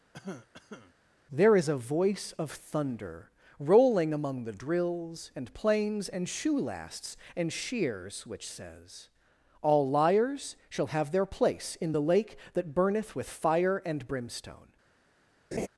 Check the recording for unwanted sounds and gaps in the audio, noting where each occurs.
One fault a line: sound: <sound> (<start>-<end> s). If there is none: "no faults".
sound: cough (0.1-0.9 s)
sound: laugh (15.5-15.7 s)